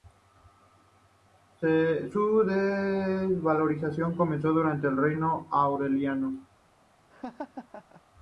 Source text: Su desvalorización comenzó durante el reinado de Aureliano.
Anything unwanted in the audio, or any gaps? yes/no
yes